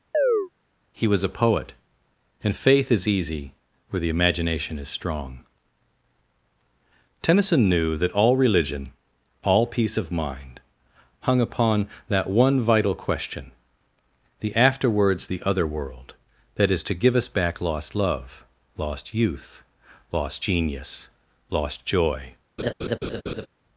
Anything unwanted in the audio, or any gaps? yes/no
yes